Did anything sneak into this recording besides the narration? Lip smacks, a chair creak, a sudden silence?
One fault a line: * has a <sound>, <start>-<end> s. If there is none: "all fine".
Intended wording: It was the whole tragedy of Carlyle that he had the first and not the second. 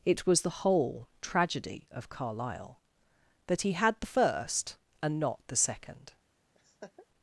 * has a laugh, 6.5-7.1 s